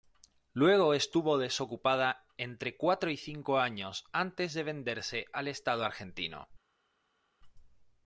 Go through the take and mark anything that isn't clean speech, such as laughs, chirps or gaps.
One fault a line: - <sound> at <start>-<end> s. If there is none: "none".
none